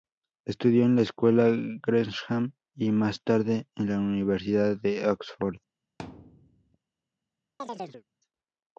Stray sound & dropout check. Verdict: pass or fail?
fail